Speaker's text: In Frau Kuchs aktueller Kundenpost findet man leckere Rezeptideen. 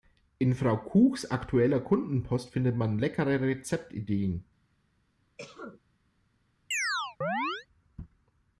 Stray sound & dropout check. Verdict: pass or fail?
fail